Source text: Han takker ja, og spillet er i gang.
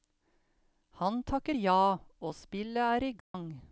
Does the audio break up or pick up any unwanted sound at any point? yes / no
yes